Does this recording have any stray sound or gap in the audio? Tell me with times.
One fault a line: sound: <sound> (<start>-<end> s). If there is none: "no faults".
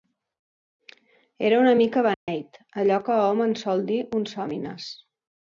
sound: dropout (2.1-2.3 s)